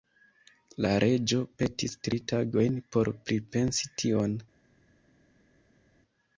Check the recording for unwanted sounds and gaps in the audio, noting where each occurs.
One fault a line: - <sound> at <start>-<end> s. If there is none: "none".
none